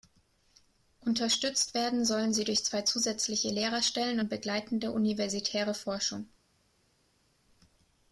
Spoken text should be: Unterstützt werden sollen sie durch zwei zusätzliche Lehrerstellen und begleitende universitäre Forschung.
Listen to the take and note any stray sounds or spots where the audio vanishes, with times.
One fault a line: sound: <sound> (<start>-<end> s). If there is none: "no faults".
no faults